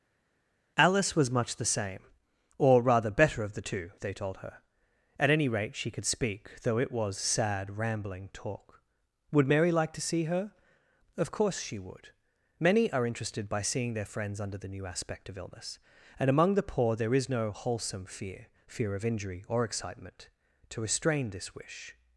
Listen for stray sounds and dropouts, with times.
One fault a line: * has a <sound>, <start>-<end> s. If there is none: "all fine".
all fine